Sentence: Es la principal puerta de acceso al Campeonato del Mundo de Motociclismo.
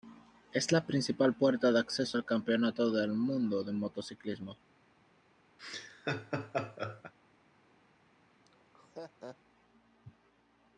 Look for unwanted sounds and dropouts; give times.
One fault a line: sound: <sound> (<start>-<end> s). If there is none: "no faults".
sound: laugh (5.6-7.1 s)
sound: laugh (8.5-9.4 s)